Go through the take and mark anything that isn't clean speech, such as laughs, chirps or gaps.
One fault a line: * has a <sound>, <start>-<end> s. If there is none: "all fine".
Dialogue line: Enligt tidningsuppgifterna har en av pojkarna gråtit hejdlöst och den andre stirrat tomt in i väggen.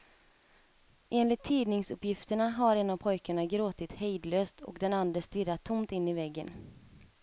all fine